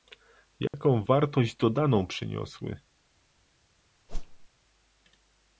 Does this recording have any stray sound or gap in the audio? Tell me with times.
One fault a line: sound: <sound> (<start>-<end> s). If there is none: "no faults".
sound: dropout (0.7-0.7 s)
sound: whoosh (4.1-4.5 s)